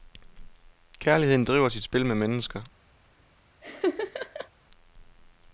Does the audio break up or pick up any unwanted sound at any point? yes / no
yes